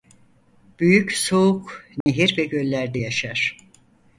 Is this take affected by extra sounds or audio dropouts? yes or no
yes